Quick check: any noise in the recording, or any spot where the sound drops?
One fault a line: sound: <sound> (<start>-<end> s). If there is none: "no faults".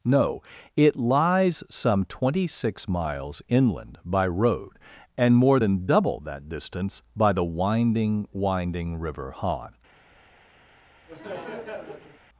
sound: laugh (11.1-12.2 s)